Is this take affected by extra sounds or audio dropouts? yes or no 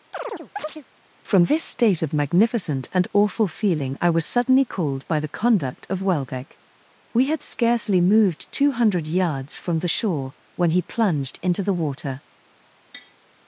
yes